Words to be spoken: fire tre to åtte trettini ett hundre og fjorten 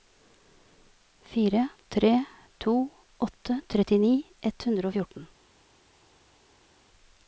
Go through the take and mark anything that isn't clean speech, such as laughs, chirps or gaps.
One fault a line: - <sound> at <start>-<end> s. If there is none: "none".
none